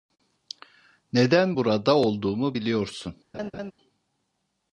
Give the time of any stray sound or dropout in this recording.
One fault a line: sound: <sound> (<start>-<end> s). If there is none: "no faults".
sound: laugh (3.3-3.7 s)